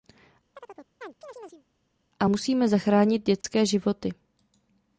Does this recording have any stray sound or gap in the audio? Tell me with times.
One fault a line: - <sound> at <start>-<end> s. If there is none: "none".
- chirp at 0.6-1.7 s
- dropout at 3.4-3.4 s